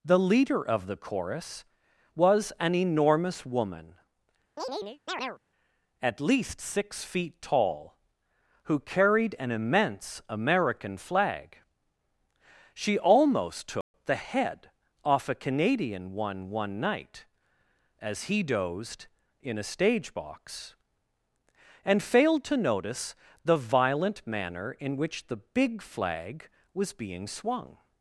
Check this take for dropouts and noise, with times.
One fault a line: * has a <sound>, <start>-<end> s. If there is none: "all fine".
* has a chirp, 4.6-5.4 s
* has a dropout, 13.8-13.9 s